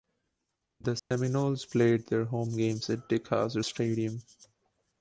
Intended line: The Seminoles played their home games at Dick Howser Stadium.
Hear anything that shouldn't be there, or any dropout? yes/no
yes